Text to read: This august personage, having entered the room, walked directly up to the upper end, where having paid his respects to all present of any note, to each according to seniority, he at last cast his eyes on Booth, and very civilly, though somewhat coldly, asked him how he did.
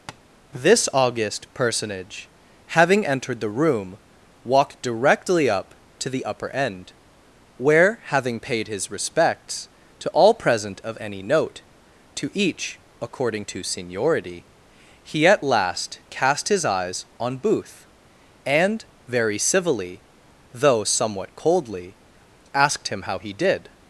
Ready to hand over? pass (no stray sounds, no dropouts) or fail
fail